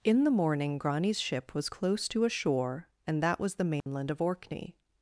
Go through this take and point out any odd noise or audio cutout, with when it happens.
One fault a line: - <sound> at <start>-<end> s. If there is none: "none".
- dropout at 3.8-3.9 s